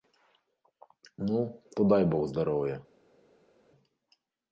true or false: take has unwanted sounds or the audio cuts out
false